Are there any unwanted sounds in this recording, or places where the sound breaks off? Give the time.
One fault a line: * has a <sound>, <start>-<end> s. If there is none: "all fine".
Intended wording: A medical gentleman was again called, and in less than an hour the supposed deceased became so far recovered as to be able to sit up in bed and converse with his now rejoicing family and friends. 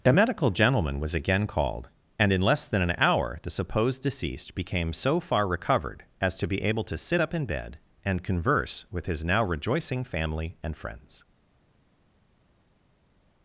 all fine